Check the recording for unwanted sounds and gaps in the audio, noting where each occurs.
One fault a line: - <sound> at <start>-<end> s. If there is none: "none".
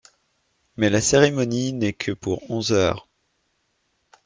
none